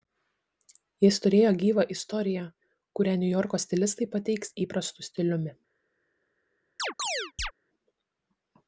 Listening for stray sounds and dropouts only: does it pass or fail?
fail